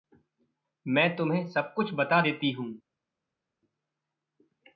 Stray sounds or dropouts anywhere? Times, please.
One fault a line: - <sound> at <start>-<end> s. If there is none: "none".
none